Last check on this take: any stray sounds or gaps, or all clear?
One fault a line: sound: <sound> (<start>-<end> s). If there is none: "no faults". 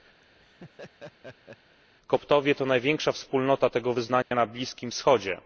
sound: laugh (0.2-1.8 s)
sound: dropout (4.2-4.3 s)